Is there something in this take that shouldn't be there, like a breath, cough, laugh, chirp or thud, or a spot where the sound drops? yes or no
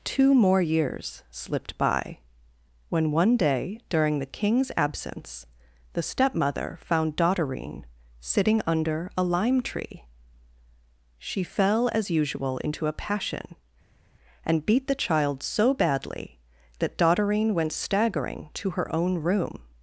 no